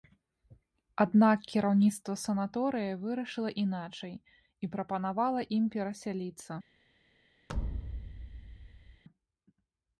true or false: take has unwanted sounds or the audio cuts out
true